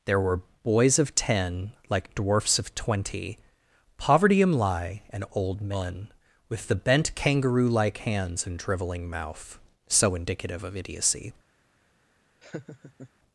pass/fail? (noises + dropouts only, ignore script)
fail